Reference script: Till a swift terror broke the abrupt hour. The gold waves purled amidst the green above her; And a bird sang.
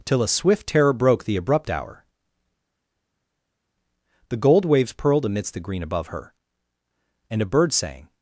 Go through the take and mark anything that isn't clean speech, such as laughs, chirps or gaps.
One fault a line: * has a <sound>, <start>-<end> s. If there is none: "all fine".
all fine